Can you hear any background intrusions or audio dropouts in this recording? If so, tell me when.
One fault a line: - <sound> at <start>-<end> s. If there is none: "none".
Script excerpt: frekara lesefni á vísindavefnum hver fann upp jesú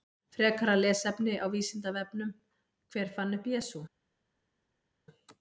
none